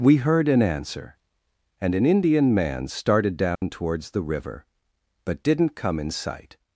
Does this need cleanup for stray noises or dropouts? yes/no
yes